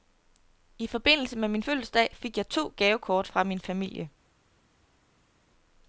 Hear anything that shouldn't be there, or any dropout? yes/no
no